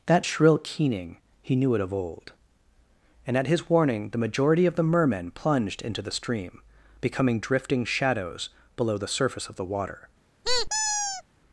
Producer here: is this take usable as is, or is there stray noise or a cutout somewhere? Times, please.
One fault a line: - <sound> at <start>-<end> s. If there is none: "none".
- squeak at 10.4-11.2 s